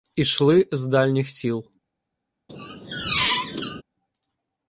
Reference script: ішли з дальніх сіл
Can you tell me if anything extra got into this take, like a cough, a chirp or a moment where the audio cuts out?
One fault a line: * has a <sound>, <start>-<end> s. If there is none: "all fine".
* has a squeak, 2.5-3.8 s